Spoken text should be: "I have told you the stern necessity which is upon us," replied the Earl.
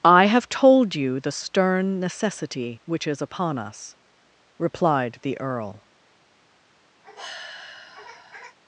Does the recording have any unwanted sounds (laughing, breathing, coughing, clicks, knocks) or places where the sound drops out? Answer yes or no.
yes